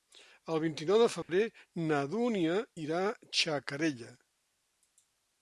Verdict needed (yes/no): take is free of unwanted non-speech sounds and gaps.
no